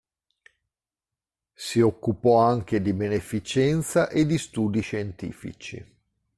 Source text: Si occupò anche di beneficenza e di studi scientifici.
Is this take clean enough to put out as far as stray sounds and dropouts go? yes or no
yes